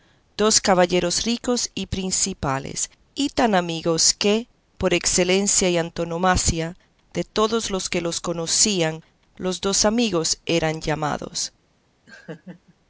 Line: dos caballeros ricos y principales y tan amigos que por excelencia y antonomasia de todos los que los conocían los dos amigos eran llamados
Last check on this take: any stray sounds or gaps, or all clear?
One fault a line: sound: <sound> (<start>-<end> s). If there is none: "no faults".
sound: laugh (12.1-12.8 s)